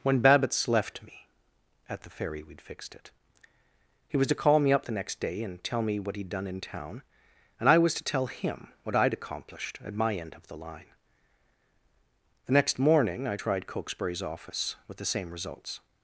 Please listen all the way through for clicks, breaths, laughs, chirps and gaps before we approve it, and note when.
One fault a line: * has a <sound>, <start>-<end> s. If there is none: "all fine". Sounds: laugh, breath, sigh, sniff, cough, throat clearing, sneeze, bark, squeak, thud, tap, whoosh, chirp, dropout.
all fine